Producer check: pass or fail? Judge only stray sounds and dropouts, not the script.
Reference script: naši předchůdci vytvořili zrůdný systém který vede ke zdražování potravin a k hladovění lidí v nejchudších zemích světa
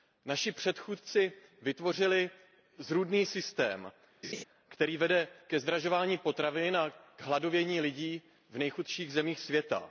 fail